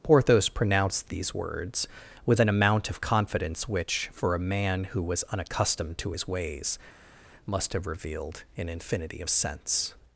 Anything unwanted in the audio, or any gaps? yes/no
no